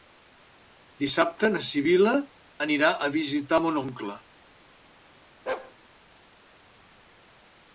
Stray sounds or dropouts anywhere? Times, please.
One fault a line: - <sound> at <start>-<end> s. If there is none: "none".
- bark at 5.5-5.7 s